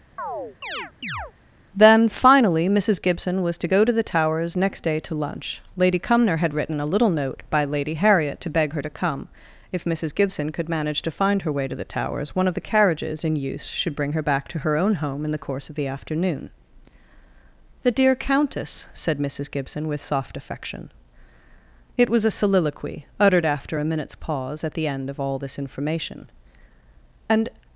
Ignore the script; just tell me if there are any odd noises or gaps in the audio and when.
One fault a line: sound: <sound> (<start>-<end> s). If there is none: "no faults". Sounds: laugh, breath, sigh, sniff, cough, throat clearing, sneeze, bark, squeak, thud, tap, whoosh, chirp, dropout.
sound: chirp (0.2-1.3 s)